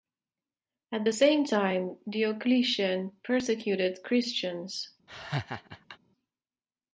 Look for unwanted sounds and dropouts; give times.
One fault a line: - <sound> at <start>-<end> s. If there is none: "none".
- laugh at 5.1-6.0 s